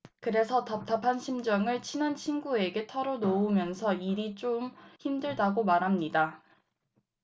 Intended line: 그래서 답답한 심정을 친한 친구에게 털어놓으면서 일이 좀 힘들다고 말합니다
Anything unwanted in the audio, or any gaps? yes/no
no